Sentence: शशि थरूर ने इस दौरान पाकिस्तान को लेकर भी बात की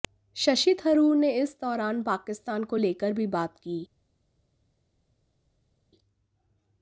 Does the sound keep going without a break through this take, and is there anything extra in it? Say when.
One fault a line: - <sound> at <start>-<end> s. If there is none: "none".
none